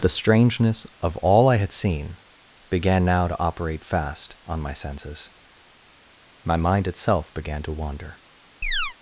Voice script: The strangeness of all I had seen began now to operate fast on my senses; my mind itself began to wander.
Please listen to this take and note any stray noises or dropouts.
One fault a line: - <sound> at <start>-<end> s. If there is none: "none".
- chirp at 8.6-8.9 s